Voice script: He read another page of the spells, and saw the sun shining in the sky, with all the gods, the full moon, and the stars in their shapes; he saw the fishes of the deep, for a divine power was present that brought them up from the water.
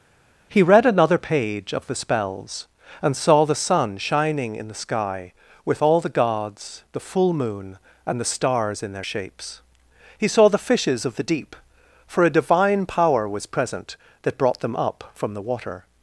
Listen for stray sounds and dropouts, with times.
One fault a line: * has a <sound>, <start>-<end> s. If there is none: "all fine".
all fine